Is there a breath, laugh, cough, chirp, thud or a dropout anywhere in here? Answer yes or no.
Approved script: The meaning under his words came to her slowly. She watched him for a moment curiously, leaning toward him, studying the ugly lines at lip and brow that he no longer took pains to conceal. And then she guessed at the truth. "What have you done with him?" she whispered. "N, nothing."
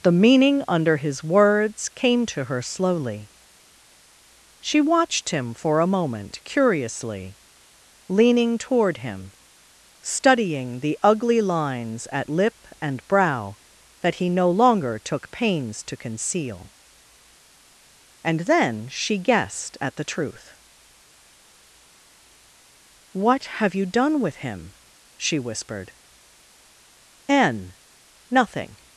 no